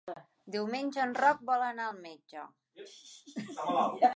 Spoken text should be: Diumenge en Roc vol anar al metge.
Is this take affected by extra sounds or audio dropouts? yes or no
no